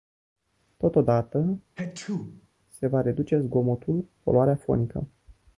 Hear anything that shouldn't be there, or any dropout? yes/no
yes